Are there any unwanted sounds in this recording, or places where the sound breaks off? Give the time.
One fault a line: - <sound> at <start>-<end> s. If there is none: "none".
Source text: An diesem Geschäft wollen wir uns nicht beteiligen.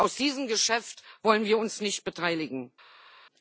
none